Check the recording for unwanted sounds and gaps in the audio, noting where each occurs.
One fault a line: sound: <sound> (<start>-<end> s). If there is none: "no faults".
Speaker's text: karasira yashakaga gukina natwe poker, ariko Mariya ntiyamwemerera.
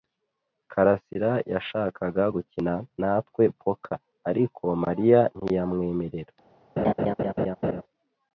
sound: laugh (6.8-7.8 s)